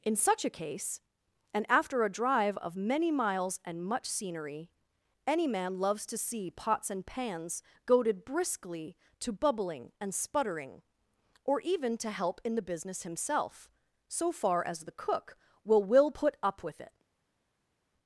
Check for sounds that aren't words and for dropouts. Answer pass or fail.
pass